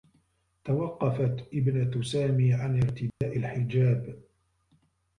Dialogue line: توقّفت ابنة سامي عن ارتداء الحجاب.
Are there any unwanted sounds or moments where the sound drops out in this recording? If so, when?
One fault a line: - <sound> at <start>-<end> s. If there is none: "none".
- dropout at 3.1-3.2 s